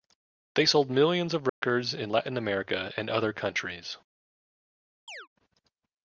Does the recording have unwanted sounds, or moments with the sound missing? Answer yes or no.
yes